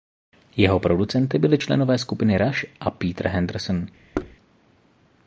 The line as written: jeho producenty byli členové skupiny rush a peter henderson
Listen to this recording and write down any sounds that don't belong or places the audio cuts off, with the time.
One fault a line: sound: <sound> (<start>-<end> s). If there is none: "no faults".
sound: thud (4.1-4.4 s)